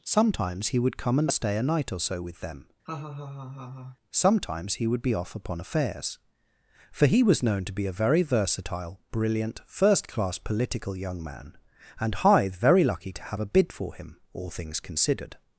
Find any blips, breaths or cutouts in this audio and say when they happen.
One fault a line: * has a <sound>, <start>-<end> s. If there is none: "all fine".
* has a laugh, 2.9-4.0 s